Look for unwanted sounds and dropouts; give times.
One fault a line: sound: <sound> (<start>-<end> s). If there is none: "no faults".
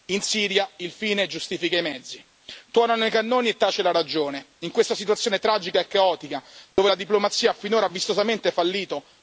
sound: dropout (6.7-6.8 s)